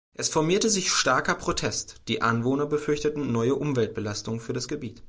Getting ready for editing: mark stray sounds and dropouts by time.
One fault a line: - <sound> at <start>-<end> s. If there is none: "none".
none